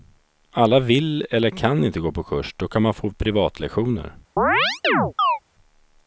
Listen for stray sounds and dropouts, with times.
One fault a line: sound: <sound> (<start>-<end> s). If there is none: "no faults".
sound: chirp (4.4-5.4 s)